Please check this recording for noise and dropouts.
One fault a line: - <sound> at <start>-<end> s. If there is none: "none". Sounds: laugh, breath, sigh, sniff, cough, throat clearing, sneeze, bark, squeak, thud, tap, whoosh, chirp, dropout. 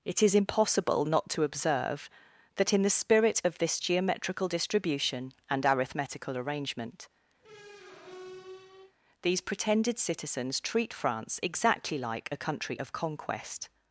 - squeak at 7.4-8.9 s